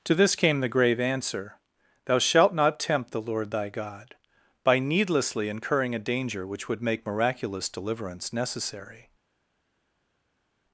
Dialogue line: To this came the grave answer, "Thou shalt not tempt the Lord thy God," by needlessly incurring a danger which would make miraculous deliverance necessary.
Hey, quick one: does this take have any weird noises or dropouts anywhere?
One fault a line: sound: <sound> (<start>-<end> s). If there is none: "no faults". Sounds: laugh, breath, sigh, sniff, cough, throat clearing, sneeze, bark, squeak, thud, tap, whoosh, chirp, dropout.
no faults